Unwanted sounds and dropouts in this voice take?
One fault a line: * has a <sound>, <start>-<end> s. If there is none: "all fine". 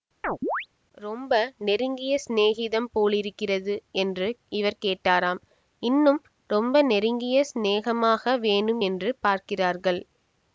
* has a chirp, 0.2-0.7 s